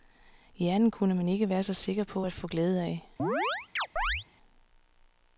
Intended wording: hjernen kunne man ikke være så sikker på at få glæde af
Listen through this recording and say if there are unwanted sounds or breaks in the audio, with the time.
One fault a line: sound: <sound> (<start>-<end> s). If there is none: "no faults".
sound: chirp (3.2-4.3 s)